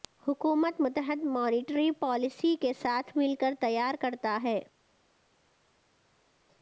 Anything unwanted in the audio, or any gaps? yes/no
no